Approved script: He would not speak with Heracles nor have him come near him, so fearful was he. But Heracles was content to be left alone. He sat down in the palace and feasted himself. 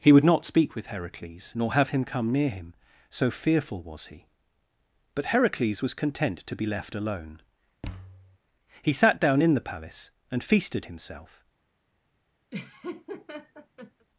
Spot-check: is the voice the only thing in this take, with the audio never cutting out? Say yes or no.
no